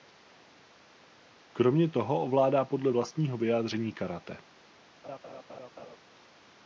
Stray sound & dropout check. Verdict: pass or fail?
fail